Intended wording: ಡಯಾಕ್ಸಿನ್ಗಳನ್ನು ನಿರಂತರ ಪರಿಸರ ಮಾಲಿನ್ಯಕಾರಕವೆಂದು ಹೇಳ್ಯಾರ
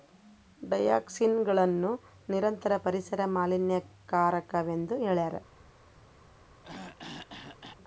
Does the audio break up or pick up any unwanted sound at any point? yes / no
yes